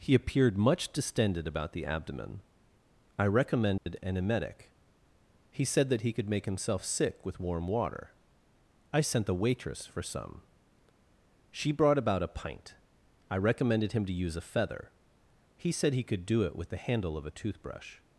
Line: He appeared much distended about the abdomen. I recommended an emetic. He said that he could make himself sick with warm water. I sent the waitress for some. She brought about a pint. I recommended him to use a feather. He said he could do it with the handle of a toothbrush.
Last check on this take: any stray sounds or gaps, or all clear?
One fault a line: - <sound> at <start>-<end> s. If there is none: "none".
- dropout at 3.8-3.9 s